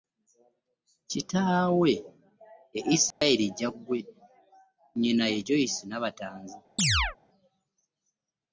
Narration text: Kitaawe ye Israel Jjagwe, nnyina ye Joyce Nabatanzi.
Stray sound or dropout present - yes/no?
yes